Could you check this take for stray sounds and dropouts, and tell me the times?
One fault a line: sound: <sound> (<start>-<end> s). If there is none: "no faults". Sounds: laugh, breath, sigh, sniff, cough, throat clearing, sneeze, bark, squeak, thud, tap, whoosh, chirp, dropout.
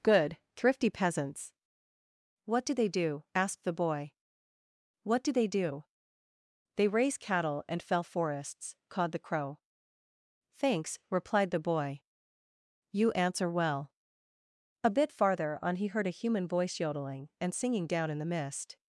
no faults